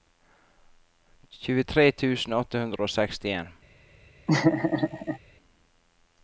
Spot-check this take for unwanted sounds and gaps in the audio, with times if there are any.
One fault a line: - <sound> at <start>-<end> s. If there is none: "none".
- laugh at 4.3-5.2 s